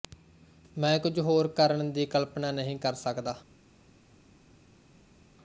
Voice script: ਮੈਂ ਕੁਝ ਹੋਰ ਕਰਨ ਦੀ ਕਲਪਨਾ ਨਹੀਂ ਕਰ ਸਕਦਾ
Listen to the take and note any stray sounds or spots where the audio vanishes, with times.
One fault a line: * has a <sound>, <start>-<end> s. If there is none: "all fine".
all fine